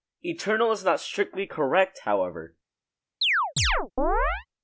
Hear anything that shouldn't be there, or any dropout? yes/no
yes